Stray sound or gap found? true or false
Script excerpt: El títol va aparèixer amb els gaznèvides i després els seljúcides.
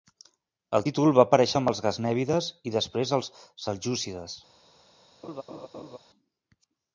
true